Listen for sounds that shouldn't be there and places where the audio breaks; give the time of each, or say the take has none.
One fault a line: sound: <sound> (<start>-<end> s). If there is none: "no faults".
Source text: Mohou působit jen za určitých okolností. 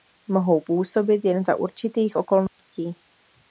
sound: dropout (2.5-2.6 s)